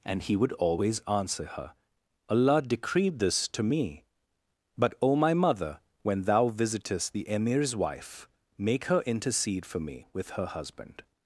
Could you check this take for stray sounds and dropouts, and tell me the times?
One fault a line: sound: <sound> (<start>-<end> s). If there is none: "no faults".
no faults